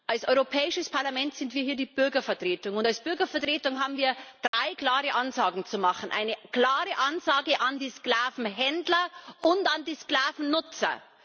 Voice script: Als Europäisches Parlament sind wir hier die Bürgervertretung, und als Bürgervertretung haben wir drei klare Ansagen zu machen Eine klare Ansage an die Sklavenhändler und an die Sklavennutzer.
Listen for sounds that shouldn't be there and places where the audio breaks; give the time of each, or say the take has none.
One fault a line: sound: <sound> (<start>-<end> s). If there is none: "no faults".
sound: dropout (4.5-4.5 s)